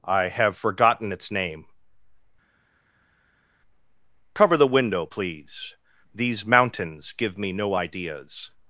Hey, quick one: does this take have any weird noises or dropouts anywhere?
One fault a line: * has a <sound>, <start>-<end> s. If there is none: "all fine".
all fine